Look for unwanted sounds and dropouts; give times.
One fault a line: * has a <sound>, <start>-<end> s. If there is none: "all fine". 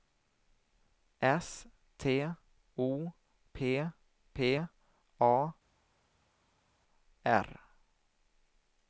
all fine